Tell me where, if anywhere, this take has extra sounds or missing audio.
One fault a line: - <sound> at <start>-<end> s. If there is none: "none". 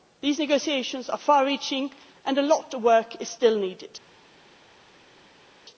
none